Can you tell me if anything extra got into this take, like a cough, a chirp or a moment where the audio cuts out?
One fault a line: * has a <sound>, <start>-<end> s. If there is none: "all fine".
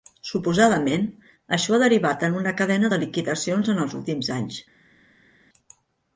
all fine